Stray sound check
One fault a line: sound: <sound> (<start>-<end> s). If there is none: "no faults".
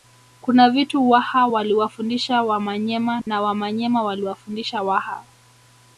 sound: dropout (3.2-3.3 s)